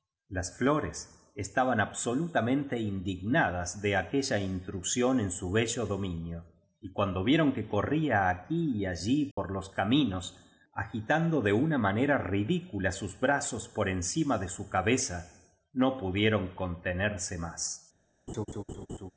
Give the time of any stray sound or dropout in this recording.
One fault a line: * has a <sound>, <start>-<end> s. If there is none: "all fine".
* has a dropout, 9.3-9.4 s
* has a laugh, 18.3-19.1 s